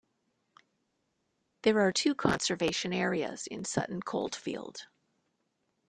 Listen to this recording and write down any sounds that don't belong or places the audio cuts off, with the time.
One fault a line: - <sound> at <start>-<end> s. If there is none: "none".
none